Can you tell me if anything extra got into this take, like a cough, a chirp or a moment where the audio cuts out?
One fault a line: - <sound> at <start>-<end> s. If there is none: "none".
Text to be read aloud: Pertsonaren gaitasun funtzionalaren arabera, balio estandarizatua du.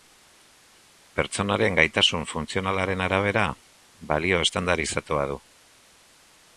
none